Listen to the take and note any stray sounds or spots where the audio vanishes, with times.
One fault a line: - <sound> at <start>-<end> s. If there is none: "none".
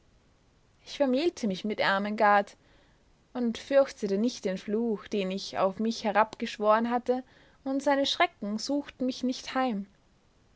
none